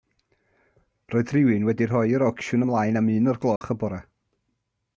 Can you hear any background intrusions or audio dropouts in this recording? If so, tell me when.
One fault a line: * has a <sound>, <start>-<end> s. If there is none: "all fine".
* has a dropout, 3.6-3.6 s